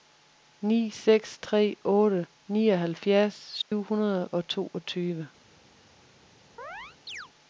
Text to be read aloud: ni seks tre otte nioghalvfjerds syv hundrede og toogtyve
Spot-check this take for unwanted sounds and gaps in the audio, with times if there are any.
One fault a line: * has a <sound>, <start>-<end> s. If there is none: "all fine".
* has a dropout, 3.6-3.7 s
* has a chirp, 6.6-7.3 s